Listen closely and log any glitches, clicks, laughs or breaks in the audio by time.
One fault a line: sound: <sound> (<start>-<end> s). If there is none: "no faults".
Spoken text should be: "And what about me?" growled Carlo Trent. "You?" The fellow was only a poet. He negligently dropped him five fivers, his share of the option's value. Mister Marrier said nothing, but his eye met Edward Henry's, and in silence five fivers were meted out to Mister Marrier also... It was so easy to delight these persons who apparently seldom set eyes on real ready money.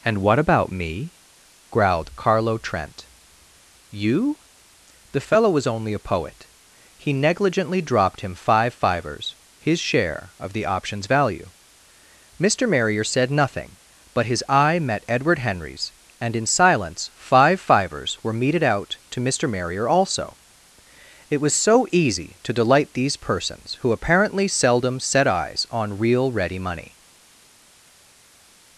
no faults